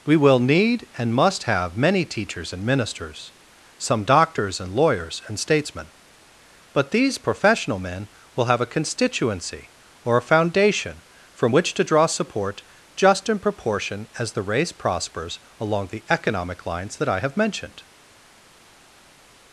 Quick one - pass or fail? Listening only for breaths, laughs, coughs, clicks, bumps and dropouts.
pass